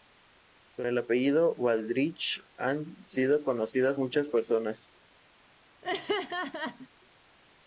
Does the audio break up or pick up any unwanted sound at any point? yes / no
yes